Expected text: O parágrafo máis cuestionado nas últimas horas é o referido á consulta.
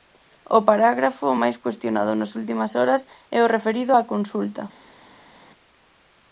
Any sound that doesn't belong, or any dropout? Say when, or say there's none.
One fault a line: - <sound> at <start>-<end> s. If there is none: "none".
none